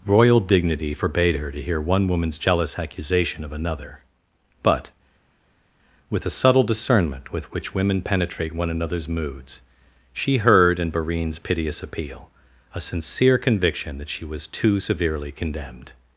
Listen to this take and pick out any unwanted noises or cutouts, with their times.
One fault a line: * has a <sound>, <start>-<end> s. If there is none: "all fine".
all fine